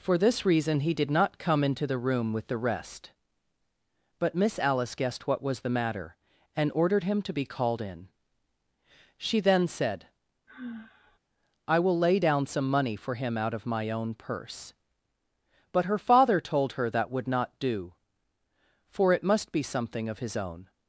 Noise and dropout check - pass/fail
fail